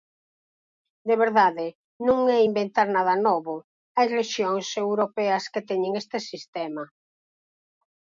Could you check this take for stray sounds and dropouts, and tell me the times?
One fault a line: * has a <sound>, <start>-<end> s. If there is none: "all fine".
all fine